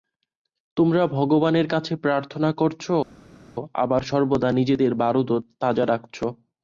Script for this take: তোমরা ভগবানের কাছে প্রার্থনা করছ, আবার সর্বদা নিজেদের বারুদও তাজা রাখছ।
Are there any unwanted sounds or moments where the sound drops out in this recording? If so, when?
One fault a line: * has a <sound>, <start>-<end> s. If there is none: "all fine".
all fine